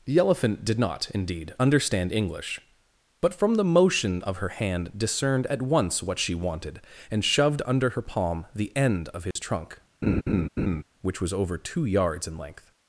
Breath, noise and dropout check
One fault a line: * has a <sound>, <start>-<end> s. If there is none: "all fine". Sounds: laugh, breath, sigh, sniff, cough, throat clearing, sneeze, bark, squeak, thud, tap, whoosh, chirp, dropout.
* has a dropout, 9.3-9.4 s
* has a laugh, 10.0-10.8 s